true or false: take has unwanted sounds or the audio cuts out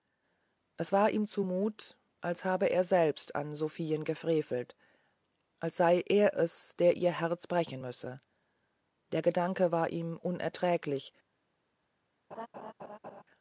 true